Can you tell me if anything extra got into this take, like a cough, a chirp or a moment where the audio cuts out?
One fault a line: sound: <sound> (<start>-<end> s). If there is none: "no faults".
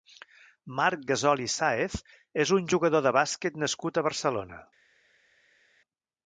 no faults